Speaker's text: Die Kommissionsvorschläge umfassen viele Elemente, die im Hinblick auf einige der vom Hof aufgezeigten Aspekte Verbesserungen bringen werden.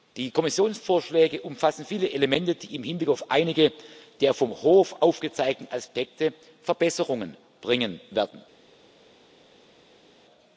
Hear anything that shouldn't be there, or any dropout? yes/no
no